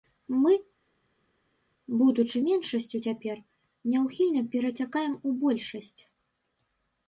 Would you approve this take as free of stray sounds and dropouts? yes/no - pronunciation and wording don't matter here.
yes